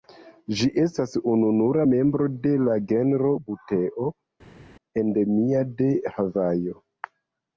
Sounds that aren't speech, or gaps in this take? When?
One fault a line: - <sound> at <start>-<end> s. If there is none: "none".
none